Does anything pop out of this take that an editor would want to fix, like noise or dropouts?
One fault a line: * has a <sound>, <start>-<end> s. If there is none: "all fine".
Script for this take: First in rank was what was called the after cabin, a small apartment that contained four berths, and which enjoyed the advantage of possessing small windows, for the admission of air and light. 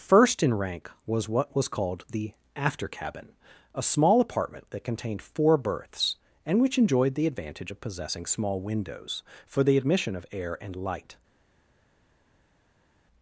all fine